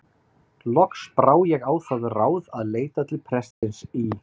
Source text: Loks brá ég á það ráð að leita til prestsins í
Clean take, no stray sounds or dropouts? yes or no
no